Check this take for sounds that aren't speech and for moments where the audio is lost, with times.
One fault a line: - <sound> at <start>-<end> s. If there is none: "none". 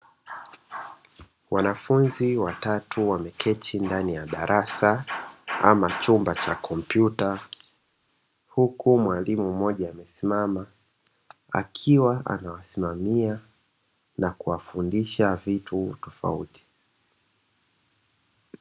none